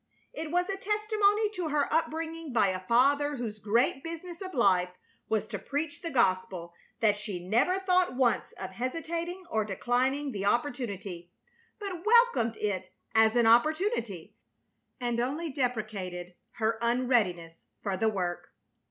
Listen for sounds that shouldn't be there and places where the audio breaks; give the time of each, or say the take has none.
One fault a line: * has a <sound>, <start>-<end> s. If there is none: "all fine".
all fine